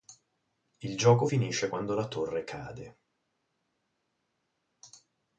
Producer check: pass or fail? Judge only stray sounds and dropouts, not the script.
pass